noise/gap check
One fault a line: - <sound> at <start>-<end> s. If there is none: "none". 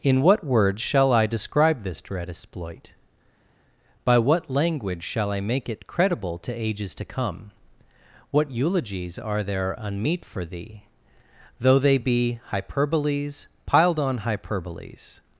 none